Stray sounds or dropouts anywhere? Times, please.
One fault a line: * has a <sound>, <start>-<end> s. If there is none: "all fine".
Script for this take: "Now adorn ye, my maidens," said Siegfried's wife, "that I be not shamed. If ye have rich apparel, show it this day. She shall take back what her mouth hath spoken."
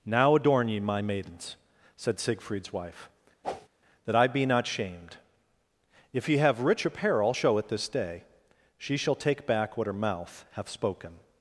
* has a whoosh, 3.4-3.7 s